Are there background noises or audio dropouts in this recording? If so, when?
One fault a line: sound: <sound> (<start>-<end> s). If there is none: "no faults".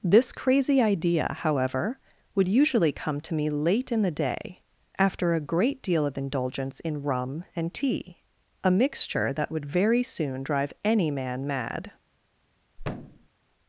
sound: thud (12.8-13.3 s)